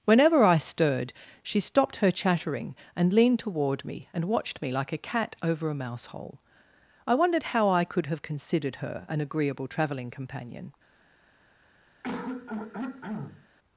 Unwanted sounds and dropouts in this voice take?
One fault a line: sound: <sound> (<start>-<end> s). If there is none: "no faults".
sound: throat clearing (12.0-13.5 s)